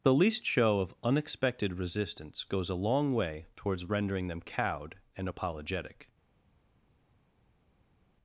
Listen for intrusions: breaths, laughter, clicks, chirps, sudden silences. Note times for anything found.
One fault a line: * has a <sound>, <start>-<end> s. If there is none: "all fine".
all fine